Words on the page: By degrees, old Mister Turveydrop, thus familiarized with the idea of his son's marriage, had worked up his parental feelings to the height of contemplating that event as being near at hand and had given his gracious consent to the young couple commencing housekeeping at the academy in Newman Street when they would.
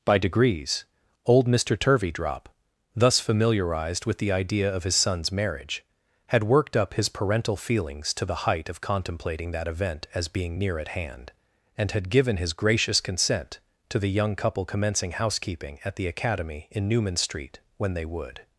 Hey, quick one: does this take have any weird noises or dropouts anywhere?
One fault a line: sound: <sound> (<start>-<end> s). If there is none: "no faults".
no faults